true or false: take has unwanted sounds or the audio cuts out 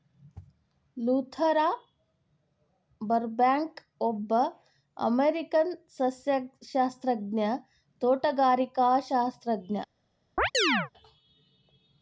true